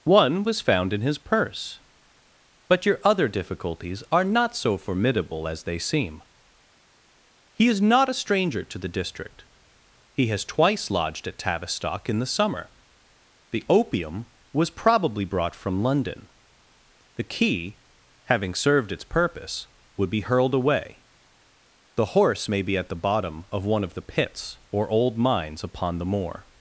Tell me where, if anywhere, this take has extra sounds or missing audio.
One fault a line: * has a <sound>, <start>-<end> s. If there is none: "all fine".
all fine